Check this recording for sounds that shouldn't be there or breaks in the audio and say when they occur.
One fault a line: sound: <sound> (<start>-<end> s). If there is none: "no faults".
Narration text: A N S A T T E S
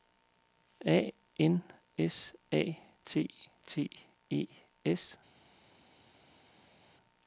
no faults